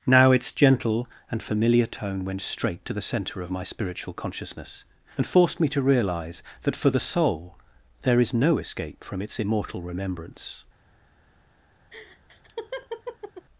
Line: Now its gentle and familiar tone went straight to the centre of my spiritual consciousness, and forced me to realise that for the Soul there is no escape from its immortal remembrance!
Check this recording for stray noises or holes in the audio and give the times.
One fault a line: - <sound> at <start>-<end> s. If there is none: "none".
- laugh at 11.9-13.5 s